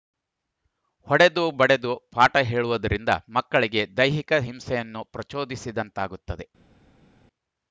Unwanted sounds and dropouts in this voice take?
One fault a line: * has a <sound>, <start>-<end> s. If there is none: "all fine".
all fine